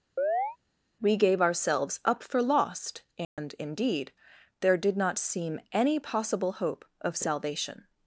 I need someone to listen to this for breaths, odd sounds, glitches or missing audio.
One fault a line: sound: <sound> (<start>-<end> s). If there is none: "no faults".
sound: chirp (0.2-0.6 s)
sound: dropout (3.2-3.4 s)